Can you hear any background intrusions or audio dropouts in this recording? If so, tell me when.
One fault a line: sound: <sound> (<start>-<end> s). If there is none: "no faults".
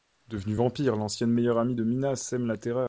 no faults